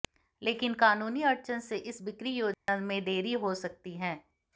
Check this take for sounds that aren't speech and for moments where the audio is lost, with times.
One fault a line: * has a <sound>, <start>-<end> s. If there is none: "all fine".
* has a dropout, 2.5-2.7 s